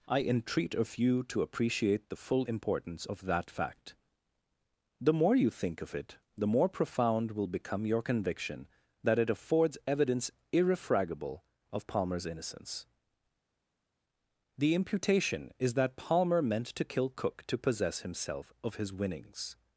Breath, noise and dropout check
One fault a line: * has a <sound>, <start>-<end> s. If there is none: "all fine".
all fine